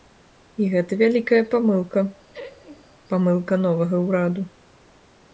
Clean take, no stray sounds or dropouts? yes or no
no